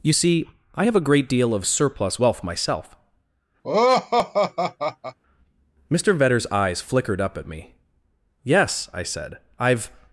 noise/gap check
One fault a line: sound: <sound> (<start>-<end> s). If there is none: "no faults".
sound: laugh (3.6-5.2 s)